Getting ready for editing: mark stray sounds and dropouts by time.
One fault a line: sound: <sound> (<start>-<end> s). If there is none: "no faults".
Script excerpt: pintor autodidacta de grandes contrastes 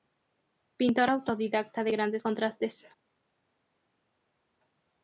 no faults